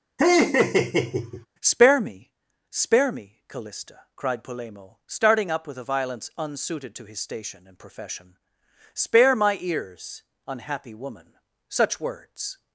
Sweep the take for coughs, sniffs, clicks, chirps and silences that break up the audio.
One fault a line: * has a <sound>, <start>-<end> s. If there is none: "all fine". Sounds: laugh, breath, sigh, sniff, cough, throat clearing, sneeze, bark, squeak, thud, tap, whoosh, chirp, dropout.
* has a laugh, 0.2-1.5 s